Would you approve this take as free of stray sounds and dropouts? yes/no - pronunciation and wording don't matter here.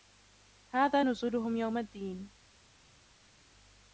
yes